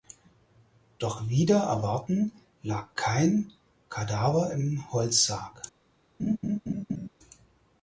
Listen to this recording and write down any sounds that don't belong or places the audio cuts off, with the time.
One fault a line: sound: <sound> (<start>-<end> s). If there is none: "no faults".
sound: laugh (6.2-7.1 s)